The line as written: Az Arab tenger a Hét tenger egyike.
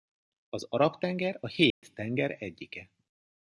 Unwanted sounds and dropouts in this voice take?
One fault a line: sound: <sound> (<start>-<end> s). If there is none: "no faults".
sound: dropout (1.7-1.8 s)